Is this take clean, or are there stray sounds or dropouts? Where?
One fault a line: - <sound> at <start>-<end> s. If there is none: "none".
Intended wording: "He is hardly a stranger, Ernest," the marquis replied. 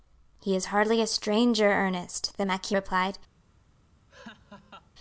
- laugh at 4.1-4.9 s